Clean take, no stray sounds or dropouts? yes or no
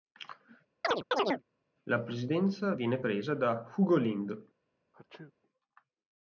no